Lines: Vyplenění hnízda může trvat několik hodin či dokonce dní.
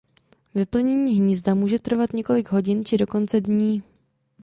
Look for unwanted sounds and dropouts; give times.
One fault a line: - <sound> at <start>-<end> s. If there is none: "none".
none